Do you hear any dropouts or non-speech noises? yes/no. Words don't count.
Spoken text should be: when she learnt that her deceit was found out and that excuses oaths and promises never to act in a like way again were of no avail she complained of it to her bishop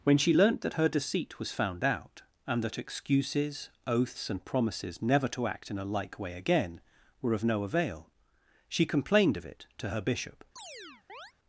yes